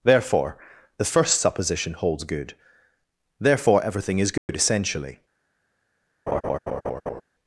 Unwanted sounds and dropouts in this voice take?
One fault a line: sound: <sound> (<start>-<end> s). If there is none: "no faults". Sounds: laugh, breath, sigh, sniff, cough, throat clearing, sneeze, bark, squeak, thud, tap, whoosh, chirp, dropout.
sound: dropout (4.4-4.5 s)
sound: laugh (6.3-7.2 s)